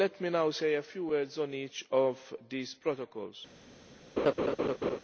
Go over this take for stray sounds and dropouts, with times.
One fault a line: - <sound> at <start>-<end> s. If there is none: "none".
- laugh at 4.2-5.0 s